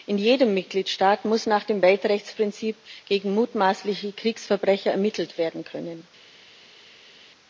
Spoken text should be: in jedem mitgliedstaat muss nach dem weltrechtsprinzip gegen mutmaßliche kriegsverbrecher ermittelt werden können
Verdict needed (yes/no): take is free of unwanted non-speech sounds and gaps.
yes